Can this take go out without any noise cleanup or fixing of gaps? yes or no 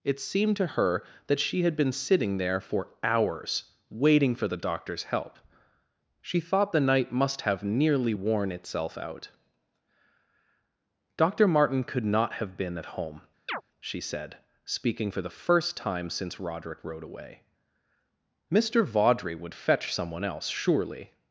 no